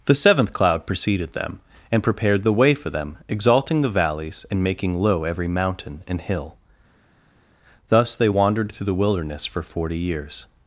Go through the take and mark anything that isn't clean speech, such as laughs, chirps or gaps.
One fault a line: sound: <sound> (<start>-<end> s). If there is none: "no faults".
no faults